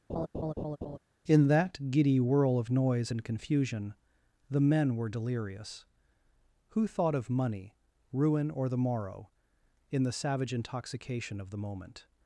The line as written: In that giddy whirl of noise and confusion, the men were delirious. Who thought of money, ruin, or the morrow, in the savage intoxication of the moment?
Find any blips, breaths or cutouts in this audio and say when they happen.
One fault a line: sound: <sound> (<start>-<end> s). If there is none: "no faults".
sound: laugh (0.1-1.0 s)